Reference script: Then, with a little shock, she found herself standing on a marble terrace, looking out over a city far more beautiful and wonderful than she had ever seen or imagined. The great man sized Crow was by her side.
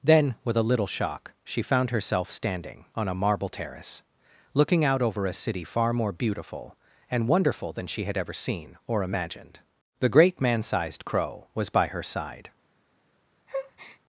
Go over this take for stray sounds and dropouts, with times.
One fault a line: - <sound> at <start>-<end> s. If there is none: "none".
- breath at 13.5-14.0 s